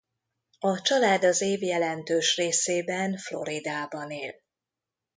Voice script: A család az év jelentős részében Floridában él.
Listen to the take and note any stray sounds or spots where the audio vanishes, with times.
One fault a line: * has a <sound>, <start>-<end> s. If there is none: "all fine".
all fine